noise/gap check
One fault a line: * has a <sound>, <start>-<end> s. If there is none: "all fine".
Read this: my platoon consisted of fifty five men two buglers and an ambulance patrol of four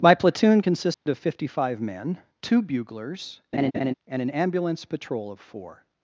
* has a dropout, 0.9-1.1 s
* has a laugh, 3.5-3.9 s